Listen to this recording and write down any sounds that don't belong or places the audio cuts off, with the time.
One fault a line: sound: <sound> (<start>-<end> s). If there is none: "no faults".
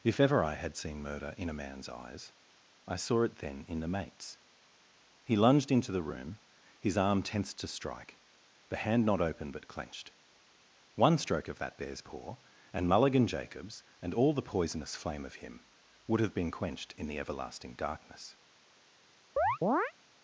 sound: chirp (19.4-19.9 s)